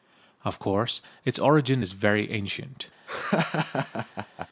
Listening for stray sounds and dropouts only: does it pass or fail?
fail